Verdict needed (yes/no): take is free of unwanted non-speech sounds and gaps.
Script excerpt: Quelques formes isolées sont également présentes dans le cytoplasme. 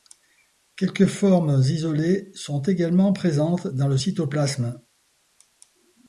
yes